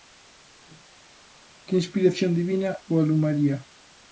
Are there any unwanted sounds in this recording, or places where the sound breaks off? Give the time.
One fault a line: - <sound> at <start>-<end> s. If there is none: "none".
none